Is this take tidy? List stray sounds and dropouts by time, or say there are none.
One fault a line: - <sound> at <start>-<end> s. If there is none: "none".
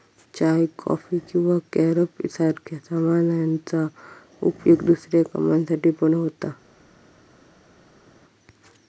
none